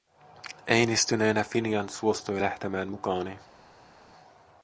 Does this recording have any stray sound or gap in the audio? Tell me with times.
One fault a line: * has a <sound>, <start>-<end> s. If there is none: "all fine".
all fine